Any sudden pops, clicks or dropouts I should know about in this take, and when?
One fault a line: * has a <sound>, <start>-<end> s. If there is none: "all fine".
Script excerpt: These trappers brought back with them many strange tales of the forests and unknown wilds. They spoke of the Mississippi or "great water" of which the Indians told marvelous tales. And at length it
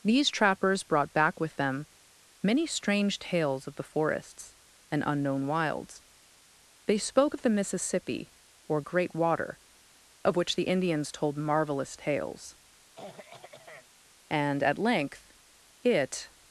* has a throat clearing, 13.0-13.9 s